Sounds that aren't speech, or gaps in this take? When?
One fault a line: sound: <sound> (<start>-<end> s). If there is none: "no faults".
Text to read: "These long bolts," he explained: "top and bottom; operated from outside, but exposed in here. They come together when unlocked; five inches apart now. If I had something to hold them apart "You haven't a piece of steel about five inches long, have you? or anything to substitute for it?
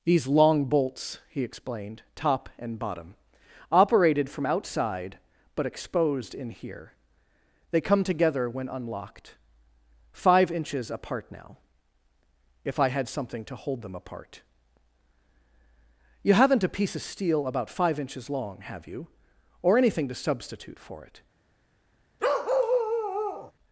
sound: bark (22.2-23.5 s)